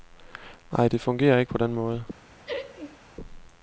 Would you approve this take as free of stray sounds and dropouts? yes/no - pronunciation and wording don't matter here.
no